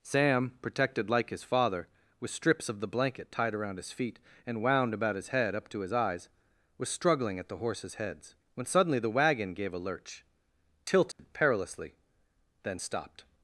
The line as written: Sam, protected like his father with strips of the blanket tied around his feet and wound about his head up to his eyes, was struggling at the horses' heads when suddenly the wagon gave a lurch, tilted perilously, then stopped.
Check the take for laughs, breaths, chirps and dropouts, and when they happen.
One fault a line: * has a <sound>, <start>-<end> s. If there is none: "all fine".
* has a dropout, 11.1-11.2 s